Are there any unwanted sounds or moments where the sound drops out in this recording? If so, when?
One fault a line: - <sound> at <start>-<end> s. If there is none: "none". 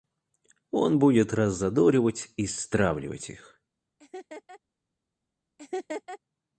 - laugh at 4.0-4.6 s
- laugh at 5.6-6.2 s